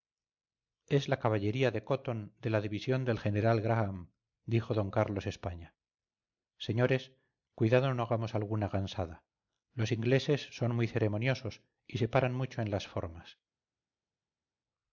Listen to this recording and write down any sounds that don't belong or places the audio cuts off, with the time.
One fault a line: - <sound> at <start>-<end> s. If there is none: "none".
none